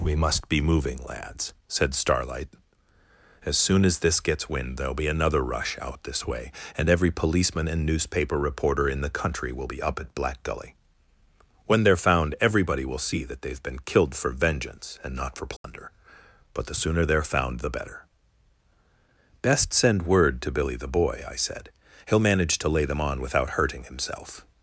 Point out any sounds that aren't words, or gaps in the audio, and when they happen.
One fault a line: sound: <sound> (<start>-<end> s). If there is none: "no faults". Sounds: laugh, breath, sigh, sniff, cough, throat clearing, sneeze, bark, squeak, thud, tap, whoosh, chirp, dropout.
sound: dropout (15.6-15.6 s)